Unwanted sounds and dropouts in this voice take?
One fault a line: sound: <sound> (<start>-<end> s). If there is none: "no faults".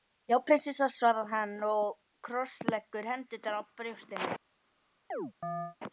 sound: chirp (5.1-5.8 s)